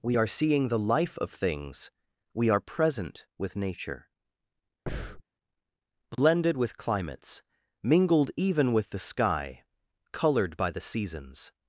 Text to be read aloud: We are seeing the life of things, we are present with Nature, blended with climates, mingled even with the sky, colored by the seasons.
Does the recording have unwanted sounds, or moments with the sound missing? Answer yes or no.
yes